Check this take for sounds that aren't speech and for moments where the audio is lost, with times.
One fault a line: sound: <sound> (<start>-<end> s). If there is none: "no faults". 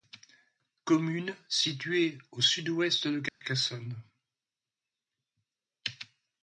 sound: dropout (3.3-3.4 s)